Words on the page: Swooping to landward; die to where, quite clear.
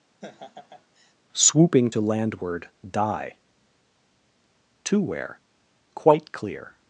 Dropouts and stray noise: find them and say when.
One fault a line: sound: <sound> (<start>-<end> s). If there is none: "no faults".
sound: laugh (0.2-1.1 s)